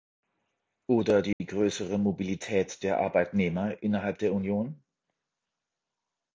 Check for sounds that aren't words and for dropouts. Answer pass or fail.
fail